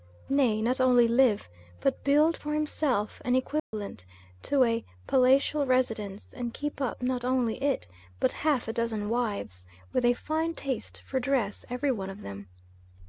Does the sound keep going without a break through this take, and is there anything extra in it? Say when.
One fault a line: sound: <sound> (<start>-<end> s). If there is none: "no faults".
sound: dropout (3.6-3.7 s)